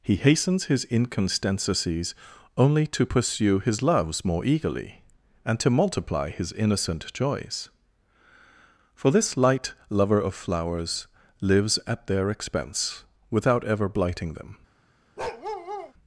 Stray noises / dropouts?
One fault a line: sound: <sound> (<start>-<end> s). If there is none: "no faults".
sound: bark (15.2-15.9 s)